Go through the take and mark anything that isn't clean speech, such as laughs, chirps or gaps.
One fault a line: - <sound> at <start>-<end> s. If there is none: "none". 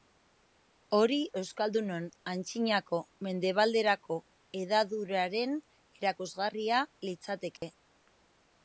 - dropout at 7.6-7.6 s